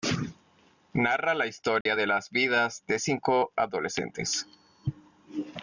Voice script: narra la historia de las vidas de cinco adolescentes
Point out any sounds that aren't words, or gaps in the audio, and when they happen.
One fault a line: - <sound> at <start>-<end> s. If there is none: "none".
- dropout at 1.8-1.9 s